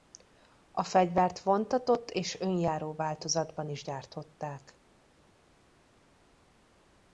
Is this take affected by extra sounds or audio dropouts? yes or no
no